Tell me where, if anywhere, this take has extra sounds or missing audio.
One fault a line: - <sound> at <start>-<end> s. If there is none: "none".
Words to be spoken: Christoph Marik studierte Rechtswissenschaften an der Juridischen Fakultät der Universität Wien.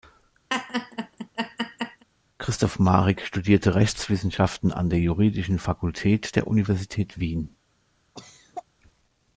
- laugh at 0.5-2.0 s
- cough at 8.1-8.6 s